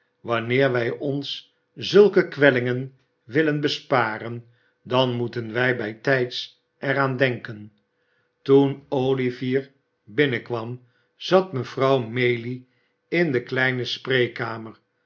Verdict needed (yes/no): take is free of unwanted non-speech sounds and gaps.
yes